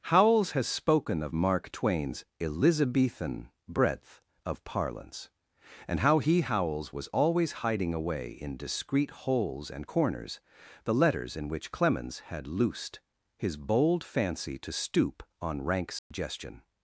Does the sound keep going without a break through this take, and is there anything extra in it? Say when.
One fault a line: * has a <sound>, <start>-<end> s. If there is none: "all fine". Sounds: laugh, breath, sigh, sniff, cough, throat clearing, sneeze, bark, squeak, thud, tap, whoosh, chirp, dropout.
* has a dropout, 16.0-16.1 s